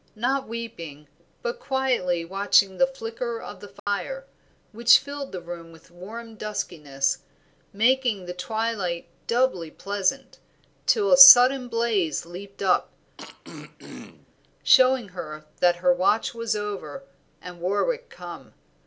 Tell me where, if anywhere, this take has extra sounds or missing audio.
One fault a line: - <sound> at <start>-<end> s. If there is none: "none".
- dropout at 3.8-3.9 s
- throat clearing at 13.2-14.3 s